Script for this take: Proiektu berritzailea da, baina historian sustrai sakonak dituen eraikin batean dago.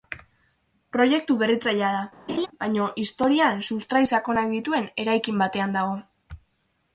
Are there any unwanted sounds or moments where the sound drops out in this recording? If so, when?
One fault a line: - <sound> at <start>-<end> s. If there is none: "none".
- laugh at 2.3-2.5 s